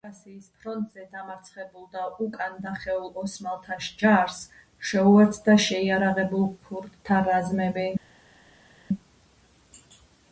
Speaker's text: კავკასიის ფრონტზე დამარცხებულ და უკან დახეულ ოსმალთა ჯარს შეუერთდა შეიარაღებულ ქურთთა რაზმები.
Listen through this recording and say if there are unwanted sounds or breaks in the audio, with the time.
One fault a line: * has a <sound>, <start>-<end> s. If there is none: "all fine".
all fine